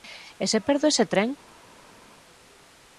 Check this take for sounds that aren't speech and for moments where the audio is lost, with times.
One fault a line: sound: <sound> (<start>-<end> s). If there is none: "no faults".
no faults